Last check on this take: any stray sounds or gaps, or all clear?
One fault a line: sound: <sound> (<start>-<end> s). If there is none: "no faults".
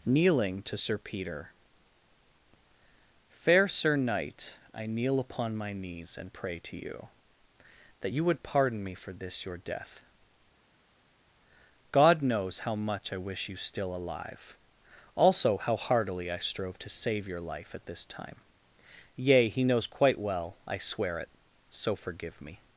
no faults